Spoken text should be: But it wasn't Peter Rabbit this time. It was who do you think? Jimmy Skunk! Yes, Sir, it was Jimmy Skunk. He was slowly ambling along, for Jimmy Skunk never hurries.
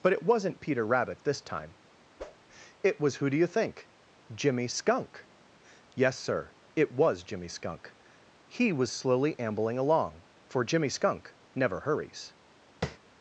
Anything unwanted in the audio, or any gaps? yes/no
yes